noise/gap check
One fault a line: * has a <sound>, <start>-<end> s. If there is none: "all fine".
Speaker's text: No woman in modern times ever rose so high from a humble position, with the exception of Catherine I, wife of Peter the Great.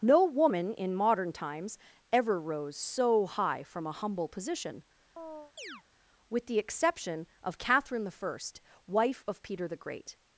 * has a chirp, 5.2-5.8 s